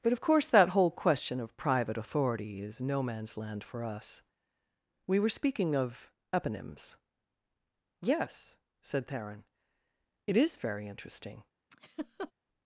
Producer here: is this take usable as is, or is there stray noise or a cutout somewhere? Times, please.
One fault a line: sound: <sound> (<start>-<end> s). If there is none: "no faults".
sound: laugh (11.7-12.3 s)